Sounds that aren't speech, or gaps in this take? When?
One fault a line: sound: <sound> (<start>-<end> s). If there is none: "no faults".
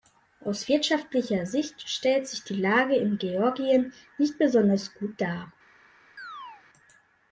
sound: chirp (6.2-6.6 s)